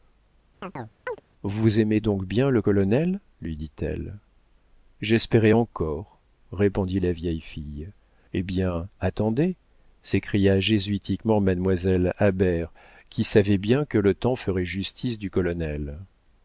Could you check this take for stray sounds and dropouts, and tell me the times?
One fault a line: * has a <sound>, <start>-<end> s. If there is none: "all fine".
* has a chirp, 0.6-1.2 s